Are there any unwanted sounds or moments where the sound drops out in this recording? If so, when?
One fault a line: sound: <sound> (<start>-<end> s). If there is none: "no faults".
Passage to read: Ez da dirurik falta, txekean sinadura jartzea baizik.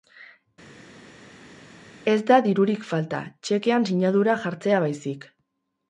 no faults